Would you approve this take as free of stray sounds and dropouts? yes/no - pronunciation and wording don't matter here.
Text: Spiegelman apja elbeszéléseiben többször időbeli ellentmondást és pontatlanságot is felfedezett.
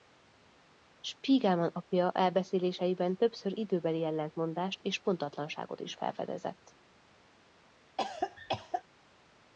no